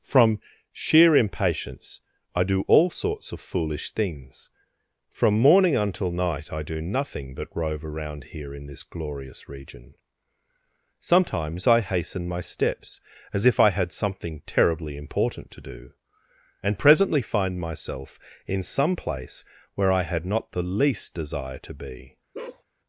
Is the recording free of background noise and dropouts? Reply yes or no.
no